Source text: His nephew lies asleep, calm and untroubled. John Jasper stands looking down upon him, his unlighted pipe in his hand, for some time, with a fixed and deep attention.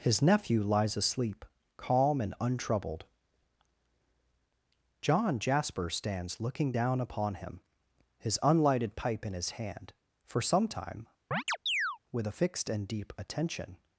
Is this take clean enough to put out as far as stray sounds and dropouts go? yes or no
no